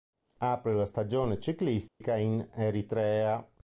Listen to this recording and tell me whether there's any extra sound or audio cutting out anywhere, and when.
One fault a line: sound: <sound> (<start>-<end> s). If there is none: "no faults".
sound: dropout (1.9-2.0 s)